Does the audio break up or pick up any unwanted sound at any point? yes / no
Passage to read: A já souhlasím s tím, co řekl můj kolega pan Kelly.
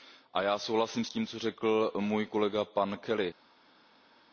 no